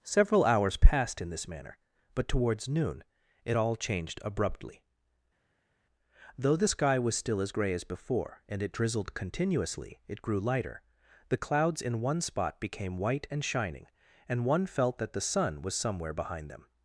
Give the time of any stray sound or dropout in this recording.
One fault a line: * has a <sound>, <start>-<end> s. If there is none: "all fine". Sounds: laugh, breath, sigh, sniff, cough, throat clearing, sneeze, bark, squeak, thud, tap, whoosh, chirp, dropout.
all fine